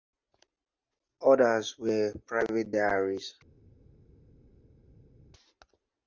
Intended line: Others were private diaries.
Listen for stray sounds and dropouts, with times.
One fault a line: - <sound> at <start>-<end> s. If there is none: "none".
none